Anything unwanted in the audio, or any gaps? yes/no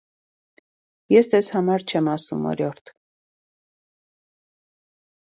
no